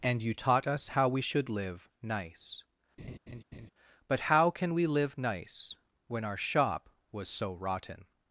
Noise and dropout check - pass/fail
fail